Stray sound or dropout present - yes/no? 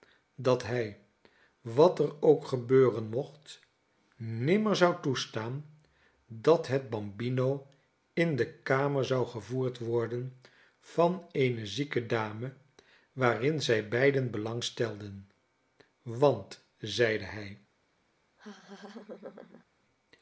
yes